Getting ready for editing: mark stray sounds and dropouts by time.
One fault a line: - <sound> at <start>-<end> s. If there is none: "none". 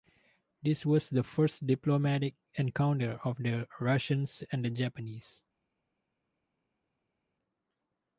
none